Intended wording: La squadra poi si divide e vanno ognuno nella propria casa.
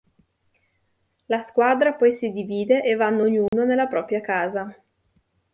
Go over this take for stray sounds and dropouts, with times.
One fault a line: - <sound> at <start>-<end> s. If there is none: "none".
- dropout at 3.5-3.5 s